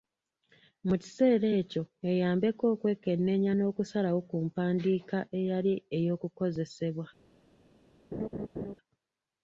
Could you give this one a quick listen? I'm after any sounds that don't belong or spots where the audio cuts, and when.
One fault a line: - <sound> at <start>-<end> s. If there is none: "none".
- laugh at 8.1-8.7 s